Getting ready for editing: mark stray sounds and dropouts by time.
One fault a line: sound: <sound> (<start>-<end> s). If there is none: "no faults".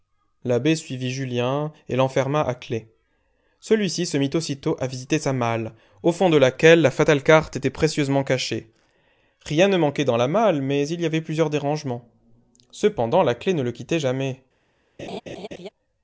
sound: laugh (15.0-15.7 s)